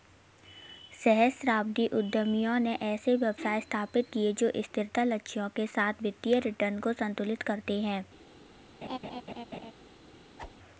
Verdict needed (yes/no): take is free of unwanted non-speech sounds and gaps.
no